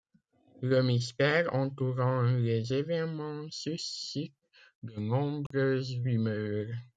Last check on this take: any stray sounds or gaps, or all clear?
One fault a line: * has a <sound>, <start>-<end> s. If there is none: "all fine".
* has a dropout, 5.5-5.5 s